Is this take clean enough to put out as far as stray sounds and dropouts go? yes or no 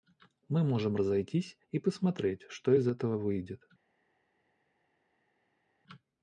yes